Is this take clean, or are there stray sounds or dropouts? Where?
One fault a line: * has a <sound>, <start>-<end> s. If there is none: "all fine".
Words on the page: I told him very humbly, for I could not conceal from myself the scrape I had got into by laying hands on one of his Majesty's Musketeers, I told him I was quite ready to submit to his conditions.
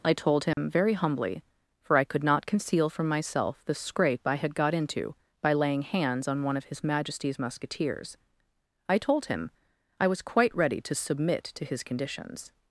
* has a dropout, 0.5-0.6 s